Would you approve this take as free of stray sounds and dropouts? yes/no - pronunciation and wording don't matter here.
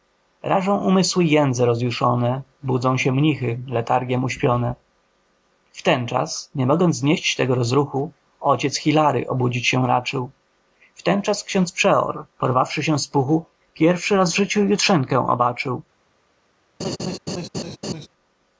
no